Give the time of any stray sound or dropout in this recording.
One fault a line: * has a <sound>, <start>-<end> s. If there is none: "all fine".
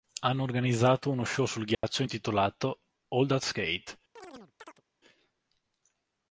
* has a dropout, 1.7-1.8 s
* has a chirp, 4.2-4.8 s